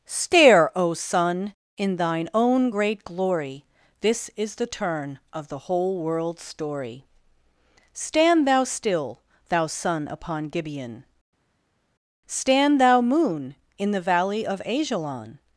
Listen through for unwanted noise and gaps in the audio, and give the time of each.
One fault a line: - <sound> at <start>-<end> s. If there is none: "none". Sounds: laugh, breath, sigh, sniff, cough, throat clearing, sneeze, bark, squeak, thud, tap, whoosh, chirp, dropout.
none